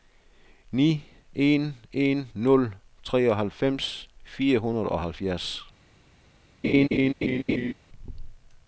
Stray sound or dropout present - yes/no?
yes